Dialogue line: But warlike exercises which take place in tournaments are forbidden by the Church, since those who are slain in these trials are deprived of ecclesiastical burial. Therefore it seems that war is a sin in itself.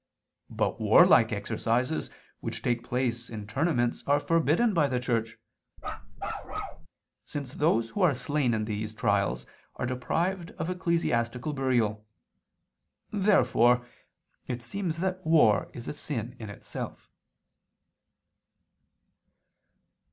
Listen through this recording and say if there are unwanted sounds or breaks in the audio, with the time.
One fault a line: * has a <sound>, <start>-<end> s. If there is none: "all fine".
* has a bark, 5.8-6.9 s